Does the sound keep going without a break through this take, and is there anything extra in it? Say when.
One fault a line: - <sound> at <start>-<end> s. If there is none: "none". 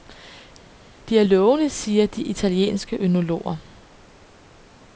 none